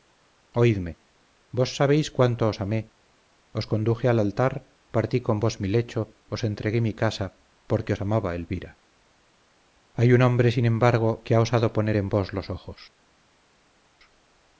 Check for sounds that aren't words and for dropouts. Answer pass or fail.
pass